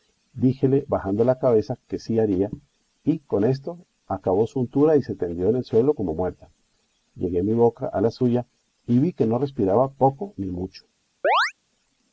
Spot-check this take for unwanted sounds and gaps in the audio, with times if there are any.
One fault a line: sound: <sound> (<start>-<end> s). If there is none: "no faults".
sound: chirp (11.2-11.5 s)